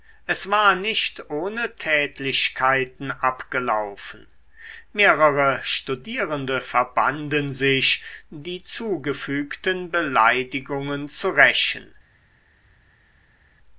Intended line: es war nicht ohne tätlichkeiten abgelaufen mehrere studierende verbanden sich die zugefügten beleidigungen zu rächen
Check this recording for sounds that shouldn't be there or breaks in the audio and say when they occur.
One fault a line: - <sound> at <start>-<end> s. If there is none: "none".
none